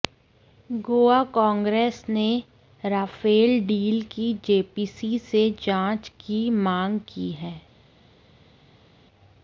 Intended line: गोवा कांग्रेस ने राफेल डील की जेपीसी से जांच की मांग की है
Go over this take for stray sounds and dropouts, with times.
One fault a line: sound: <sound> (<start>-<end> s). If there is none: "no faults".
no faults